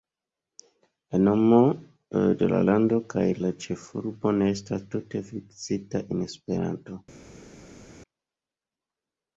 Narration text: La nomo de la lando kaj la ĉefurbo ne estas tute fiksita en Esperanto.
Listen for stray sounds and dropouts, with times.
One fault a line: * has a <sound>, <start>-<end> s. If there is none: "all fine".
all fine